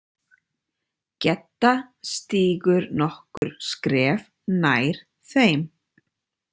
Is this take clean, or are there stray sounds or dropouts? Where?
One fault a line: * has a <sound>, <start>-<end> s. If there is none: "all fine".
* has a dropout, 3.4-3.4 s